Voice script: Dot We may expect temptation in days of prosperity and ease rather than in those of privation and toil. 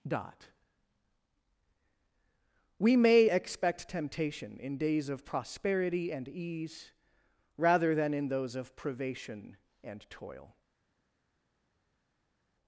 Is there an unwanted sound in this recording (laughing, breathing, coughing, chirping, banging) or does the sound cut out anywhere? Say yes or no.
no